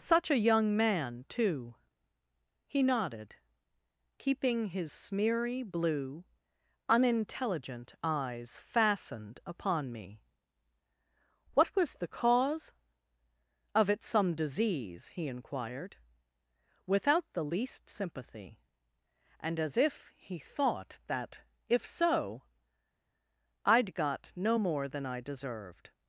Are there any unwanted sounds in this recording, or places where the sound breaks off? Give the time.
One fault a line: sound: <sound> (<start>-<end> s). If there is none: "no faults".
no faults